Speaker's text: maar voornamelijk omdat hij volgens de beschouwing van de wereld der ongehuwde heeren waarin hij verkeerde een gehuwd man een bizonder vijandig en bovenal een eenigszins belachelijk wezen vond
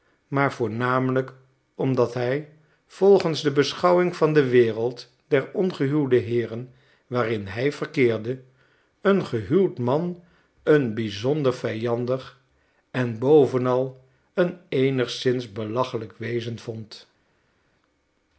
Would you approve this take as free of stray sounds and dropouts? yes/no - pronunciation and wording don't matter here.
yes